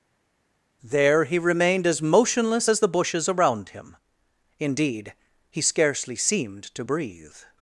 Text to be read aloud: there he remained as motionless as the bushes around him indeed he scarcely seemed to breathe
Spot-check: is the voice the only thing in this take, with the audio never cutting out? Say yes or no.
yes